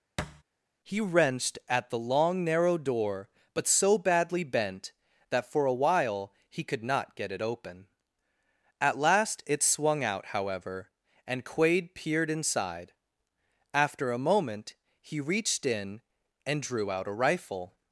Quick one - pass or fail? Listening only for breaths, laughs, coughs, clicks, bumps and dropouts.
fail